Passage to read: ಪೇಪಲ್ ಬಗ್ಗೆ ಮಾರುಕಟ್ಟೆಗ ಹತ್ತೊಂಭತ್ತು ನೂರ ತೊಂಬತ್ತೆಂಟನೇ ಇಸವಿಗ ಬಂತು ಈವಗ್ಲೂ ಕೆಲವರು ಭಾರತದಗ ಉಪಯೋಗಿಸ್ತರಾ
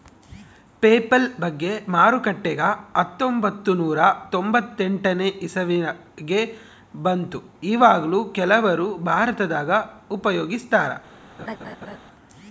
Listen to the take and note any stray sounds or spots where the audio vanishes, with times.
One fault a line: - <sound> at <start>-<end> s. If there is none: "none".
- laugh at 11.4-12.0 s